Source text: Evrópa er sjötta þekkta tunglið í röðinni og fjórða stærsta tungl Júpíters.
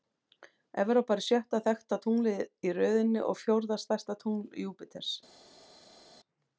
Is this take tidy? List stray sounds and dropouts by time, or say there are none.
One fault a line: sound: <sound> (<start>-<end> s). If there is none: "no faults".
no faults